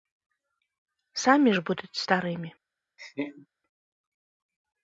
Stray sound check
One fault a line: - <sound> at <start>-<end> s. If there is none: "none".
- laugh at 3.0-3.5 s